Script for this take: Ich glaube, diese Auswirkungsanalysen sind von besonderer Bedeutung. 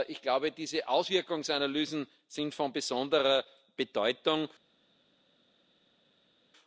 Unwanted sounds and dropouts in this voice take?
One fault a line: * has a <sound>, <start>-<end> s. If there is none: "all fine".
all fine